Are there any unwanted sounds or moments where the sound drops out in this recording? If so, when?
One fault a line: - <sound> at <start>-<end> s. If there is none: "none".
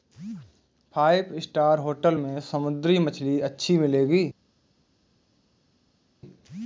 none